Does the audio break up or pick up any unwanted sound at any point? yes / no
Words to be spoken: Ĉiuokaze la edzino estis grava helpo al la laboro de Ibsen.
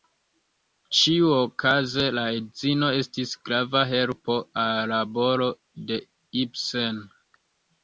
no